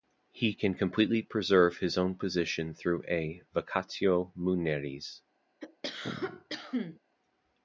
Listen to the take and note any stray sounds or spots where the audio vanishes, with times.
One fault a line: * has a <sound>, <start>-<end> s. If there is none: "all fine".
* has a cough, 5.6-7.0 s